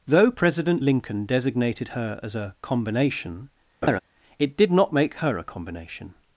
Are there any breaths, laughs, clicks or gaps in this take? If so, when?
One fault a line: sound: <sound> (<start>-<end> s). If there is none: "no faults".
sound: laugh (3.8-4.0 s)